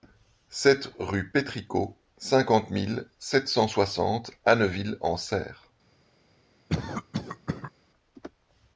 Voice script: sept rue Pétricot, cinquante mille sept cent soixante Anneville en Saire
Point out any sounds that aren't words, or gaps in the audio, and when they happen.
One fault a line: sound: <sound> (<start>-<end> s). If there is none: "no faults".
sound: cough (6.7-7.7 s)